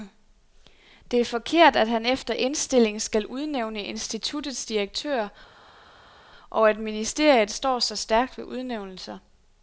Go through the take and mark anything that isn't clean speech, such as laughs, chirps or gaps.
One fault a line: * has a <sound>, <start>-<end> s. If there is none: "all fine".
all fine